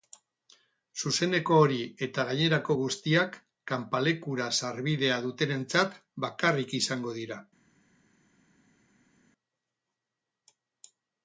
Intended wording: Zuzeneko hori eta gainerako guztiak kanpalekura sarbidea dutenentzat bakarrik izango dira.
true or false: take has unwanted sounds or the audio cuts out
false